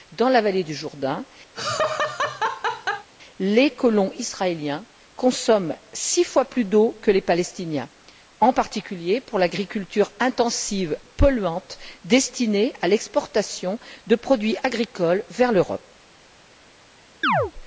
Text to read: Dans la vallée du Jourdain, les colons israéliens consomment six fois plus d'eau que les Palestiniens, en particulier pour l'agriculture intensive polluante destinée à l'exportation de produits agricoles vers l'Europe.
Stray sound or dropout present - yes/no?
yes